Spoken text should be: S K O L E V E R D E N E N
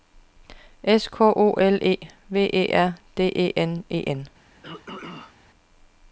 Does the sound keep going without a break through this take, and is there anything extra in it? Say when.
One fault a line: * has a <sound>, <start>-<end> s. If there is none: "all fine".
* has a throat clearing, 4.6-5.4 s